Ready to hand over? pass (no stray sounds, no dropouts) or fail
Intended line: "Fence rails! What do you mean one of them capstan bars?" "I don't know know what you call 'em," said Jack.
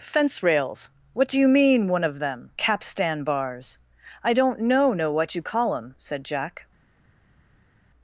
pass